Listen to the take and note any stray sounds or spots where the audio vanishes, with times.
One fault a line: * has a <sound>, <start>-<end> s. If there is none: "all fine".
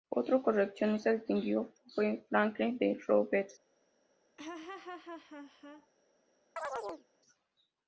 * has a laugh, 4.4-5.9 s
* has a chirp, 6.6-7.1 s